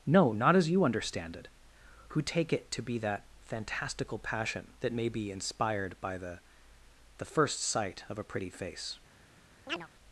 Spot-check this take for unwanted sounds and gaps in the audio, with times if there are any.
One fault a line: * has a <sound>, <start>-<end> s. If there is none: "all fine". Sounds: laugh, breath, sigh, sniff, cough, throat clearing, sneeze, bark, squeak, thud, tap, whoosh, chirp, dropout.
* has a chirp, 9.7-9.9 s